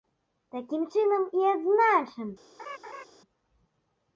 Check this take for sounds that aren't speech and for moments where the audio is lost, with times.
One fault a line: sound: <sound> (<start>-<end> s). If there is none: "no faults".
sound: laugh (2.6-3.0 s)